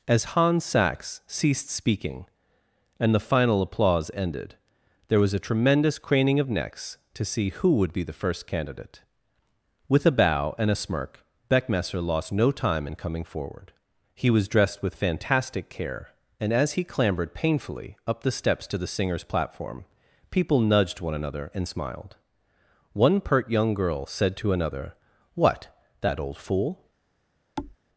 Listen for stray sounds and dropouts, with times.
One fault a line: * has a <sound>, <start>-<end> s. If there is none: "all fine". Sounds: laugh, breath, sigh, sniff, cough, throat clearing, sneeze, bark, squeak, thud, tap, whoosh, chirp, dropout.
* has a thud, 27.6-27.8 s